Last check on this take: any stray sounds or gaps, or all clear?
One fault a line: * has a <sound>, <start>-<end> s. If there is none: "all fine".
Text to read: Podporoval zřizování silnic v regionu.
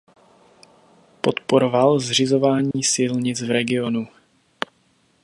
* has a dropout, 2.7-2.7 s